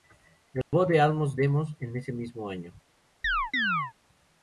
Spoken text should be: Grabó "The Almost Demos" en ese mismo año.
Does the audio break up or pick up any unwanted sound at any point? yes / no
yes